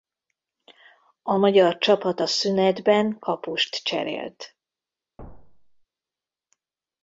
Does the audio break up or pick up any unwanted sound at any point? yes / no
yes